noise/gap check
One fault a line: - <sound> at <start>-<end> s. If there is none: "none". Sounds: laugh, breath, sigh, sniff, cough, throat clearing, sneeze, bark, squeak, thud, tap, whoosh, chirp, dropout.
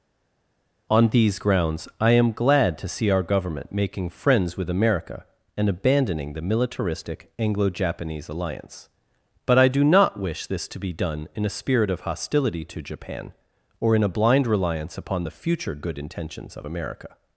none